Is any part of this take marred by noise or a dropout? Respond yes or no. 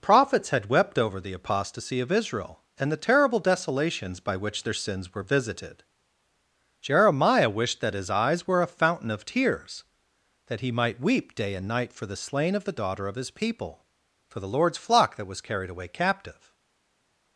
no